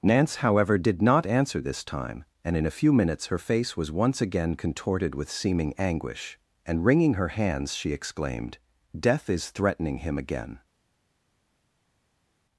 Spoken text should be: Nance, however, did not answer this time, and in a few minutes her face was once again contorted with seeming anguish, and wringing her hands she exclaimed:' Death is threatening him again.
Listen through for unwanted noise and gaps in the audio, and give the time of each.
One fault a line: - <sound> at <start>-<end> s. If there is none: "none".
none